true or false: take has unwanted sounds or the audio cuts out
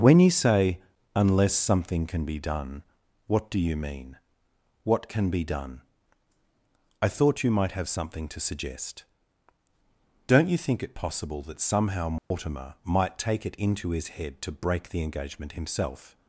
true